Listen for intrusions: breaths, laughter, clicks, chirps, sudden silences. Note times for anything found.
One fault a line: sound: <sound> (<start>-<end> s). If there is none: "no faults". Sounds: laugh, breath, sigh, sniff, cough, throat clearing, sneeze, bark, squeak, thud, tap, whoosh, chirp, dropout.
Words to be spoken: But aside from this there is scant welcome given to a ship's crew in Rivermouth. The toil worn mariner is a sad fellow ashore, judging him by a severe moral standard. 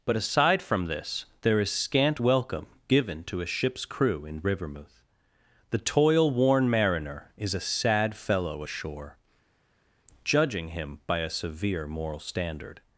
no faults